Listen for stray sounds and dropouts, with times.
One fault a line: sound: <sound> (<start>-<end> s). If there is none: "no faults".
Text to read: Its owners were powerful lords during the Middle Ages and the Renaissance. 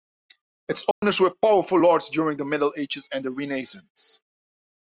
sound: dropout (0.9-1.0 s)